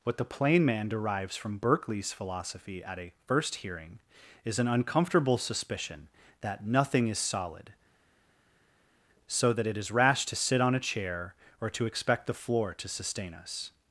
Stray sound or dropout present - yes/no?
no